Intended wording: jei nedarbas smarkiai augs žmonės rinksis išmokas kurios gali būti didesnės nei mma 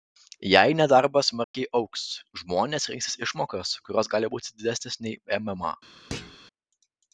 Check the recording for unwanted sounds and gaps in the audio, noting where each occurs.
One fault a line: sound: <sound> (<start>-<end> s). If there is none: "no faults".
sound: dropout (1.4-1.5 s)
sound: thud (6.1-6.4 s)